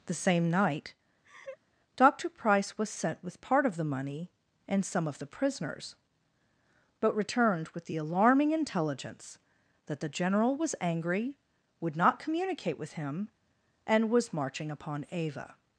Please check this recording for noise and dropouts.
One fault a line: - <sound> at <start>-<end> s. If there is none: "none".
- laugh at 1.2-1.6 s